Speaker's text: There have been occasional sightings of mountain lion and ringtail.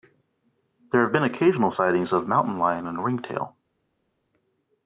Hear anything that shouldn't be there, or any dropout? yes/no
no